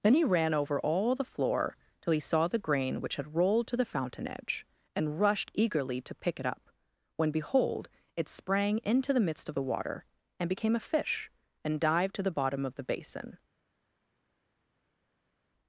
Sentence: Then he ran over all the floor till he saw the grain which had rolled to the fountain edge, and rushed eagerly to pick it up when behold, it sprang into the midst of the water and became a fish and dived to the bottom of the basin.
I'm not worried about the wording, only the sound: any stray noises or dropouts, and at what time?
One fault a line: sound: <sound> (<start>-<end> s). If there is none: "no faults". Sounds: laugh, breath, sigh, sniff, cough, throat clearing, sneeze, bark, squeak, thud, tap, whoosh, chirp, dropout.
no faults